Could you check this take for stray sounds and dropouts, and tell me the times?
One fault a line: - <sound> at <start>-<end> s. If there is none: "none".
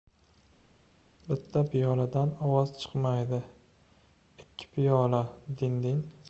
none